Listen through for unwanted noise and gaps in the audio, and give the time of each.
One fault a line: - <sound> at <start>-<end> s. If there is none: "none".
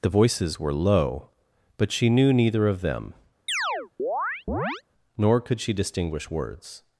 - chirp at 3.5-4.8 s